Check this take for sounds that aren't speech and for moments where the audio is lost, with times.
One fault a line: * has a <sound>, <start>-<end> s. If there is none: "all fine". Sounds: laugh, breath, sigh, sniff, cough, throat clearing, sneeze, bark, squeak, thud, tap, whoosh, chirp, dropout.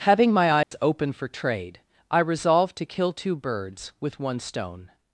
* has a dropout, 0.6-0.7 s